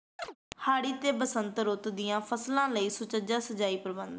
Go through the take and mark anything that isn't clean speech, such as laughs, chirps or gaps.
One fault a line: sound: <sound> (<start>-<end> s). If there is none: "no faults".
sound: chirp (0.2-0.4 s)